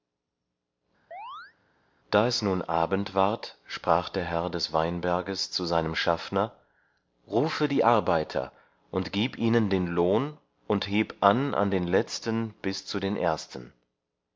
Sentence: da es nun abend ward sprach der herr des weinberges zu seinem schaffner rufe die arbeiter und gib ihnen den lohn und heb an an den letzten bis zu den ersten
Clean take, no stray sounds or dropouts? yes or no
no